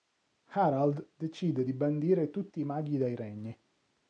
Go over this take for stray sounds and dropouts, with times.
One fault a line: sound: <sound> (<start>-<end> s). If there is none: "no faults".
no faults